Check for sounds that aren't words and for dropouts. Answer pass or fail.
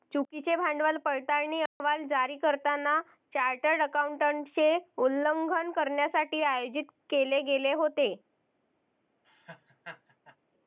fail